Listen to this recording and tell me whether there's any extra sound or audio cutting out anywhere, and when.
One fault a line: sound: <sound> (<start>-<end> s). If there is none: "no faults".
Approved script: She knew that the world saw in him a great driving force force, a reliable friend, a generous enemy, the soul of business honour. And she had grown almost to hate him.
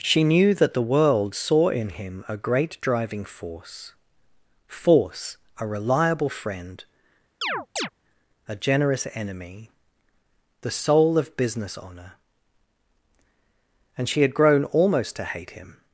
sound: chirp (7.4-7.9 s)